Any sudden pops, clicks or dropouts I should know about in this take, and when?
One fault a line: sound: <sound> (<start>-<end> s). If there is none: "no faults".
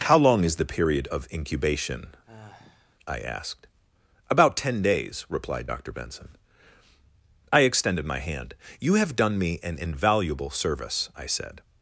sound: sigh (2.2-3.0 s)